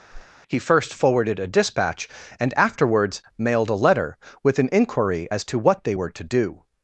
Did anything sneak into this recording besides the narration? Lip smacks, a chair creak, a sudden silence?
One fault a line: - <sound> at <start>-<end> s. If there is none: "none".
- whoosh at 0.1-0.3 s